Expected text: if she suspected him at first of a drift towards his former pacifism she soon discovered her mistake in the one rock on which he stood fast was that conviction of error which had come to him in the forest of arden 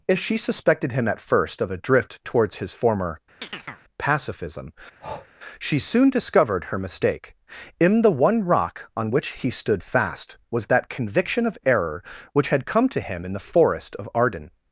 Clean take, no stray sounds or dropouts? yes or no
no